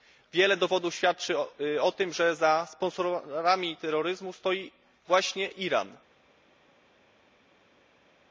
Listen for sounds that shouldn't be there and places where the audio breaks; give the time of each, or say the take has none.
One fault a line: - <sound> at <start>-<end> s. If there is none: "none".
none